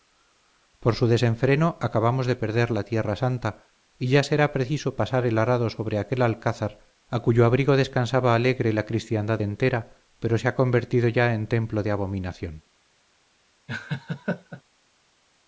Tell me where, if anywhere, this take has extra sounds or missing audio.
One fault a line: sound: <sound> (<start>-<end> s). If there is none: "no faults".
sound: laugh (13.7-14.6 s)